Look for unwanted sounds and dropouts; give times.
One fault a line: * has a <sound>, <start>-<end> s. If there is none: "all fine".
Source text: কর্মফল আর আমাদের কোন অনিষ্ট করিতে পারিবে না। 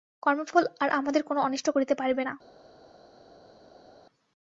all fine